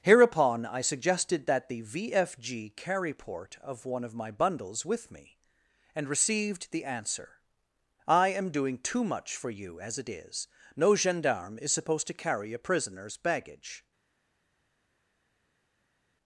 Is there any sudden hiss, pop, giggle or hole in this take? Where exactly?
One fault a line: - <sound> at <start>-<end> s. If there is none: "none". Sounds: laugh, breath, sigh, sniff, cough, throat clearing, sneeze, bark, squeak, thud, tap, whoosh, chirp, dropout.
none